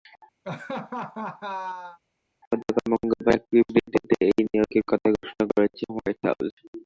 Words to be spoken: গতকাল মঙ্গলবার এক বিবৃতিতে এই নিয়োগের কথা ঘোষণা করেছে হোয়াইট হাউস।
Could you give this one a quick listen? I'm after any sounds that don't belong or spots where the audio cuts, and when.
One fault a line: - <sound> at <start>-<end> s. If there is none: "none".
- laugh at 0.4-2.0 s